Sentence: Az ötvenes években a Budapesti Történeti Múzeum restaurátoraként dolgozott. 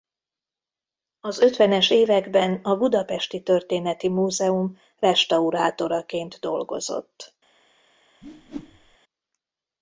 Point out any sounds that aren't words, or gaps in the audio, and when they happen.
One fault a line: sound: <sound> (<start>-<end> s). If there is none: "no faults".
sound: whoosh (8.2-9.0 s)